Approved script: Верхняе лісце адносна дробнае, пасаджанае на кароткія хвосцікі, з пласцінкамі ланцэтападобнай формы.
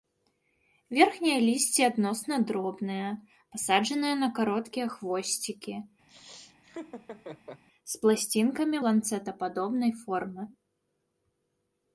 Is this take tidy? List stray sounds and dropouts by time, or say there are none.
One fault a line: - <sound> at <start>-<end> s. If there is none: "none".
- laugh at 6.1-7.6 s